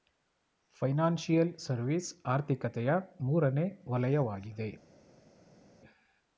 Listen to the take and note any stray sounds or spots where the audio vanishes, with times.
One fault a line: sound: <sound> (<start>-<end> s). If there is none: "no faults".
no faults